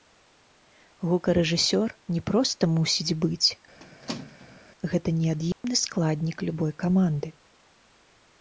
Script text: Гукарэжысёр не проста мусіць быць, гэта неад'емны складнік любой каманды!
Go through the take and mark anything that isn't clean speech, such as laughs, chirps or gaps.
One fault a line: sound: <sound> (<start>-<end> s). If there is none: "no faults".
sound: squeak (3.8-4.6 s)
sound: dropout (5.5-5.6 s)